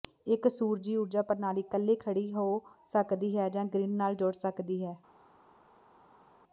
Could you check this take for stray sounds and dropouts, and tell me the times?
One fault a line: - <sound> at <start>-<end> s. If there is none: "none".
none